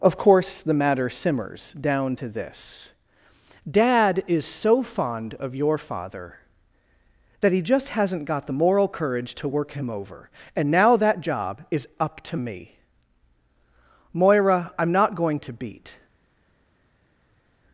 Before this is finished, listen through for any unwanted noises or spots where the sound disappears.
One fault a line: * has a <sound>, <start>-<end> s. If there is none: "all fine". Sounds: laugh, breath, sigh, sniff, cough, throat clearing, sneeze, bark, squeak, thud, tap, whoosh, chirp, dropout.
all fine